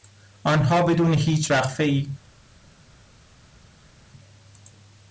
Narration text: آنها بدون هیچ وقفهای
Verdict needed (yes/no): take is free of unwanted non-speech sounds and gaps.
yes